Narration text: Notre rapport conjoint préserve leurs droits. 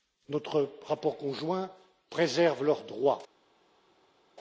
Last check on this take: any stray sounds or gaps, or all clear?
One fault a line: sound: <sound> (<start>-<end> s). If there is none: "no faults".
no faults